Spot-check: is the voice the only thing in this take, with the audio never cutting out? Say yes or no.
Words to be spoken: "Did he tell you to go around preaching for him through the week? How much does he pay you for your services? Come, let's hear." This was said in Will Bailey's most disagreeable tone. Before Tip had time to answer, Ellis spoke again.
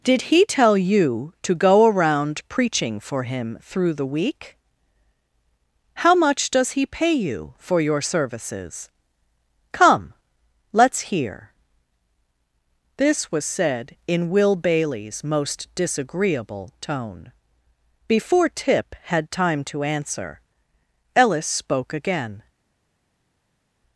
yes